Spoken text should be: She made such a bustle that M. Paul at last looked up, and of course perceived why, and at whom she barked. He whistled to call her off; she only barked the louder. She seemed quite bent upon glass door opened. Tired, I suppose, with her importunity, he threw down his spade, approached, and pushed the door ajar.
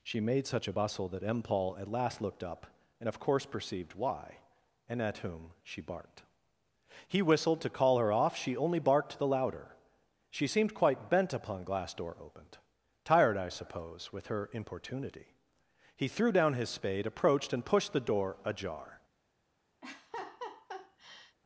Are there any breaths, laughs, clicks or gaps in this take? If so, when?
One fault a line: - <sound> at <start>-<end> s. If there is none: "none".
- laugh at 19.8-21.4 s